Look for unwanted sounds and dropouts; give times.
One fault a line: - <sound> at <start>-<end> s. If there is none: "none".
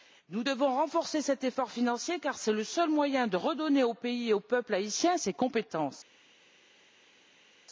none